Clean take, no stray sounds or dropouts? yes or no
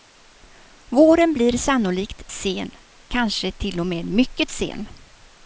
yes